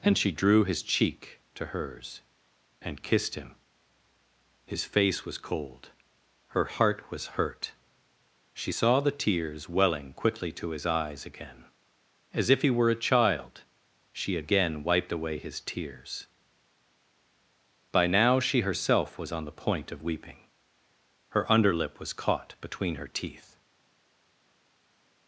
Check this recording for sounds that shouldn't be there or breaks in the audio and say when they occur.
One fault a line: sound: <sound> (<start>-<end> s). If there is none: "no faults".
no faults